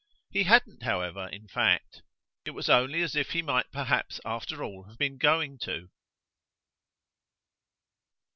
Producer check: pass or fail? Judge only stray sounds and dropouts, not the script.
pass